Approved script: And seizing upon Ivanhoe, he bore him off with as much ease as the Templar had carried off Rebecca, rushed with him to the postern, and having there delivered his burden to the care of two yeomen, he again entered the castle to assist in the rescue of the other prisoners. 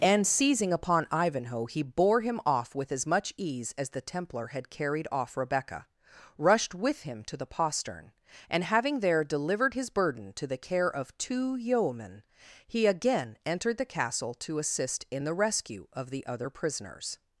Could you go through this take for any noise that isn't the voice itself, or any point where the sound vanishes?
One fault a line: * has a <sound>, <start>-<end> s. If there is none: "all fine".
all fine